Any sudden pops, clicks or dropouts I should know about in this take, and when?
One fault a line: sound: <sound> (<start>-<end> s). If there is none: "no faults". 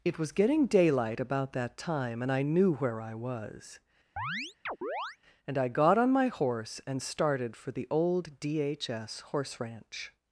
sound: chirp (4.2-5.2 s)